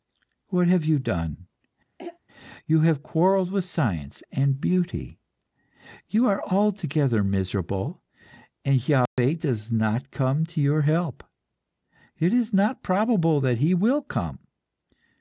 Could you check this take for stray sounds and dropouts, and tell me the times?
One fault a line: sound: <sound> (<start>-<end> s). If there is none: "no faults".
sound: throat clearing (2.0-2.2 s)
sound: dropout (9.1-9.2 s)